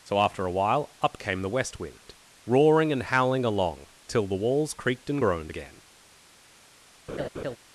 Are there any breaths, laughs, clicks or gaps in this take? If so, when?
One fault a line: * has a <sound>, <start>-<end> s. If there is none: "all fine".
* has a laugh, 7.1-7.6 s